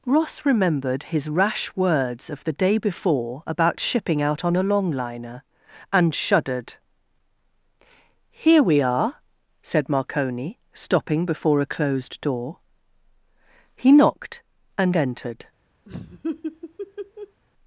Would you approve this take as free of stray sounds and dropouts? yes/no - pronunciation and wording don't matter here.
no